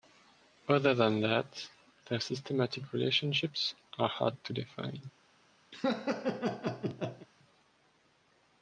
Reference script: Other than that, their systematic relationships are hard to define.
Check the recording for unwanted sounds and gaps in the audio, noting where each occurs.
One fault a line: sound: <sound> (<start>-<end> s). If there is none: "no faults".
sound: laugh (5.7-7.3 s)